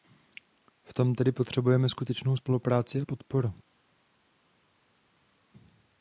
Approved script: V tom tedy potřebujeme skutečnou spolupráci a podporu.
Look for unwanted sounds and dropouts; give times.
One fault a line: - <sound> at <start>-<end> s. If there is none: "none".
none